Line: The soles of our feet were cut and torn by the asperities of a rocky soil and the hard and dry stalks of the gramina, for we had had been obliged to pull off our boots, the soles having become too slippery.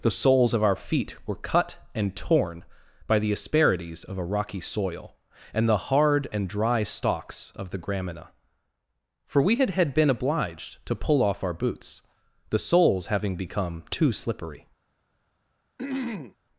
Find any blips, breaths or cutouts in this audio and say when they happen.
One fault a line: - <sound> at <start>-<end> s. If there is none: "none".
- throat clearing at 15.8-16.4 s